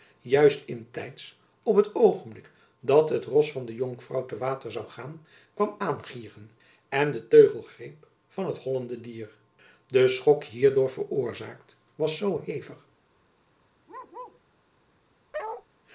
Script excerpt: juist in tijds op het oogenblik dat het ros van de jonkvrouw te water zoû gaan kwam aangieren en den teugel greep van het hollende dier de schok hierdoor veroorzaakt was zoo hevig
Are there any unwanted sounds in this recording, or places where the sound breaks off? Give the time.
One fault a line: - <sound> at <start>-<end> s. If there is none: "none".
- bark at 13.9-14.4 s
- bark at 15.3-15.7 s